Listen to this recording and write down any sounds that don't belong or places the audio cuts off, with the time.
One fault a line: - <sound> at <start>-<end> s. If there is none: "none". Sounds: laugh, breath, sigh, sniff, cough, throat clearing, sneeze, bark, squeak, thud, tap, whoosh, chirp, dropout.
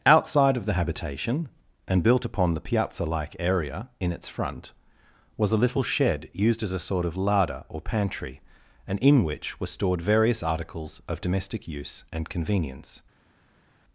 none